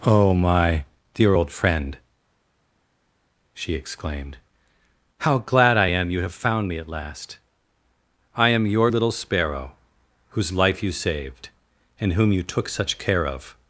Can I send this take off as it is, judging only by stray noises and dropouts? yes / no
yes